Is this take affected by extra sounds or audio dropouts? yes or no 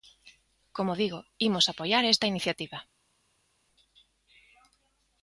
no